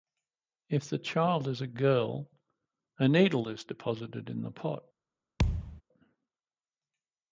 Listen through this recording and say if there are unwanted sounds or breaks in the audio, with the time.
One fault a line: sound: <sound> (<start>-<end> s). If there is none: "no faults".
sound: thud (5.4-5.8 s)